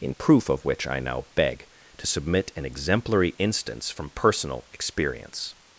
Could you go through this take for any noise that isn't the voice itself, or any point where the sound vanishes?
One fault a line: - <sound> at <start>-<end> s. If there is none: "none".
none